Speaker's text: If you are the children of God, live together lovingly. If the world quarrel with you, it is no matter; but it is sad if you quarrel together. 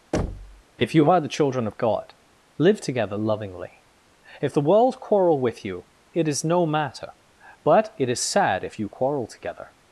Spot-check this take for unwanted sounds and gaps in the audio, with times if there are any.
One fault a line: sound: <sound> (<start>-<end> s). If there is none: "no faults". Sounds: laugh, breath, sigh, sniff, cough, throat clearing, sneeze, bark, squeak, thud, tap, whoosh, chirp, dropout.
sound: thud (0.1-0.6 s)